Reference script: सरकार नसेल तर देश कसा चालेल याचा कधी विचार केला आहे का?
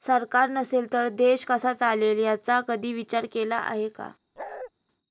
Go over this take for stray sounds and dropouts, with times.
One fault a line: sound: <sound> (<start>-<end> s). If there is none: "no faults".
sound: bark (4.4-4.7 s)